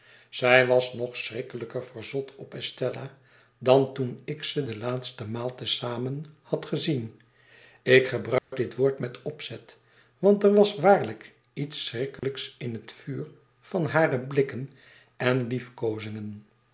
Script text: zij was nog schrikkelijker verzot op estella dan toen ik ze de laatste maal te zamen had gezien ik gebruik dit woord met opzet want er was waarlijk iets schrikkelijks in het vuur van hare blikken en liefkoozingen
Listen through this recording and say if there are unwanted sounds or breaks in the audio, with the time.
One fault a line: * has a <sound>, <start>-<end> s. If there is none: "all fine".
* has a dropout, 8.4-8.5 s
* has a dropout, 12.2-12.2 s